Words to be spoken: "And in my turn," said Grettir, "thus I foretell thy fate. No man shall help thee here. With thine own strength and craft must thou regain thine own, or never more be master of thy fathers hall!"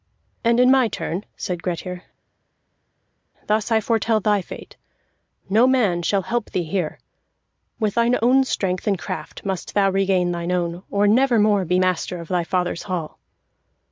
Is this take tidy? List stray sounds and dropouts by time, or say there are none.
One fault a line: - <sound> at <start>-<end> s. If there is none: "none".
none